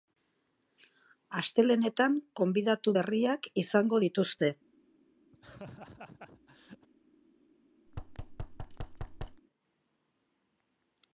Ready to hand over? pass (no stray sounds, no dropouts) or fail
fail